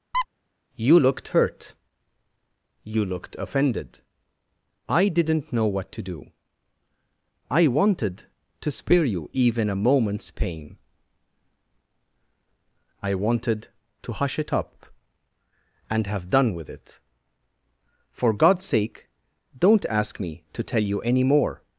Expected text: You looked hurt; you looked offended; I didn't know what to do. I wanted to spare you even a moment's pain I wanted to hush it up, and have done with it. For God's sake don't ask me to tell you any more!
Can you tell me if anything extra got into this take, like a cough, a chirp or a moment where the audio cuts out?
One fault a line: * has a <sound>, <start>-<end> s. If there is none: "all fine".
* has a squeak, 0.1-0.3 s